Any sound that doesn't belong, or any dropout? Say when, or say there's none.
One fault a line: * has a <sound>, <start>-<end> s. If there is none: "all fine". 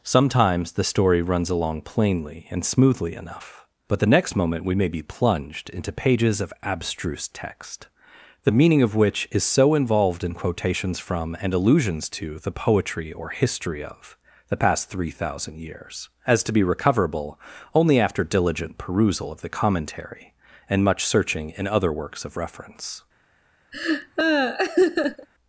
* has a laugh, 23.7-25.3 s